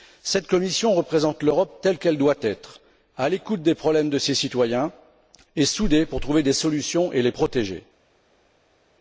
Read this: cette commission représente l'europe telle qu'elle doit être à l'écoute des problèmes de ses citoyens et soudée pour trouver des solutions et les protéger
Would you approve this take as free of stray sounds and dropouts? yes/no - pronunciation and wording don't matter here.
yes